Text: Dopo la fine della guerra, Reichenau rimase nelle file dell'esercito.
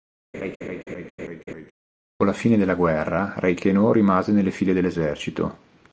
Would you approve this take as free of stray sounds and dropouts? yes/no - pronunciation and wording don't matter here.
no